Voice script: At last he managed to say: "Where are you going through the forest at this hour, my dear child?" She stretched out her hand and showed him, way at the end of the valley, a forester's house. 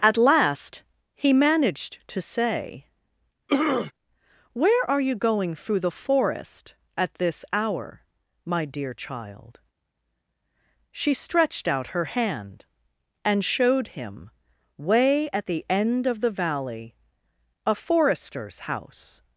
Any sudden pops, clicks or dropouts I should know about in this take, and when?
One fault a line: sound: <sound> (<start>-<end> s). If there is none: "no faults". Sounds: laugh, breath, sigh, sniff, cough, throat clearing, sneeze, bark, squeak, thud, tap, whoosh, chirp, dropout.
sound: throat clearing (3.5-3.9 s)